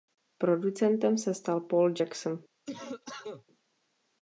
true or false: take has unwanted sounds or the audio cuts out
true